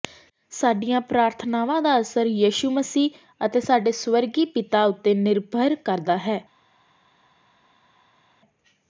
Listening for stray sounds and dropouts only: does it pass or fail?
pass